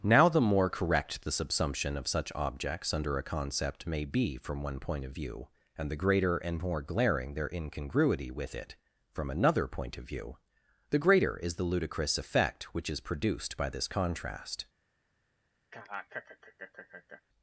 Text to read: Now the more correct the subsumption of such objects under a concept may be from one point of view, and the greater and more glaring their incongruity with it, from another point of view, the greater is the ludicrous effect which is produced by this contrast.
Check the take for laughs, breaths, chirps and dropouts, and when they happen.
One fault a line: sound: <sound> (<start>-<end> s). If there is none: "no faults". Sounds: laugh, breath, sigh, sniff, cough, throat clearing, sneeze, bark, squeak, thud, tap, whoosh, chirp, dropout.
sound: laugh (15.7-17.2 s)